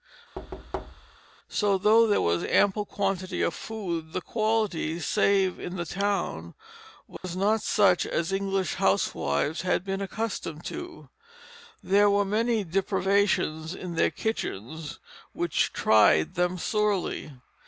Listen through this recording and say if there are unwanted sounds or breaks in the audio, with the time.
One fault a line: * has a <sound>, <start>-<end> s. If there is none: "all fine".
* has a thud, 0.3-1.2 s
* has a dropout, 7.2-7.2 s